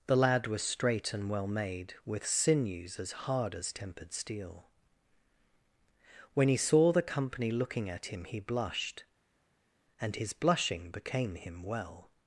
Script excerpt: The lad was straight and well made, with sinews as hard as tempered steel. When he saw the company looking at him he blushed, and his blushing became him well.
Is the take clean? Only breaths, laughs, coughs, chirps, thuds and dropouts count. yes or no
yes